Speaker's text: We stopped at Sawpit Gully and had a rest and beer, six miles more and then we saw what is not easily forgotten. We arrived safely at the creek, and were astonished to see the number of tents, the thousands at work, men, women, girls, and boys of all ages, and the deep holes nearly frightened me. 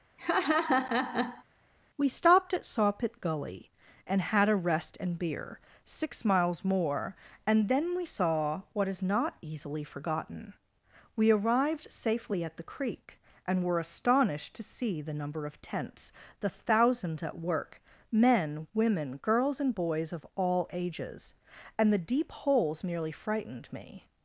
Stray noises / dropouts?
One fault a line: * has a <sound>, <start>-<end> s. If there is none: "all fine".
* has a laugh, 0.2-1.4 s